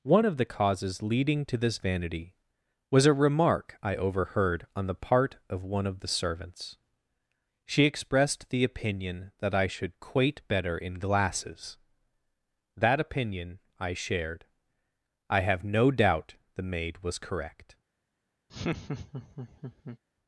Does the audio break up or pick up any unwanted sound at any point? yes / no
yes